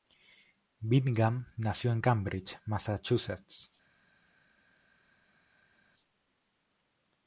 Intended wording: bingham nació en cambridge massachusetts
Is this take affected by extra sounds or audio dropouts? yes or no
no